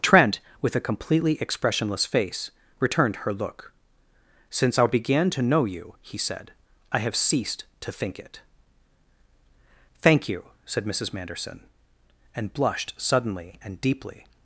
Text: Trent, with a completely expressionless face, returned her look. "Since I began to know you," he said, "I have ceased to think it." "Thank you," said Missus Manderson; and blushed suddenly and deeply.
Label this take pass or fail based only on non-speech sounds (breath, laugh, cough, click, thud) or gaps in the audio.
pass